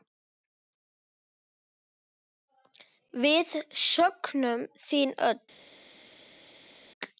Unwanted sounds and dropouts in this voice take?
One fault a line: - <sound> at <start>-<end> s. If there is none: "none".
none